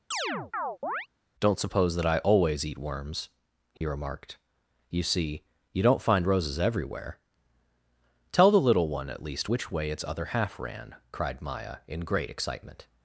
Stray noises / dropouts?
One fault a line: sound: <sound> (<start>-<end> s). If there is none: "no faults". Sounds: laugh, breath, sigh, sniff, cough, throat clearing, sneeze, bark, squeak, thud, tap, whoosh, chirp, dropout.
sound: chirp (0.1-1.1 s)
sound: dropout (3.8-3.8 s)